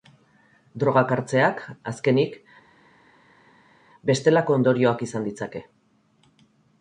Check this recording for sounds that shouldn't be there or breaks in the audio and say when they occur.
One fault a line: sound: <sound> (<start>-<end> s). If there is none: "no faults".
no faults